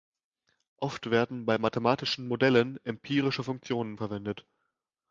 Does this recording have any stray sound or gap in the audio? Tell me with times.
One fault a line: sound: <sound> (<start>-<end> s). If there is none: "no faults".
no faults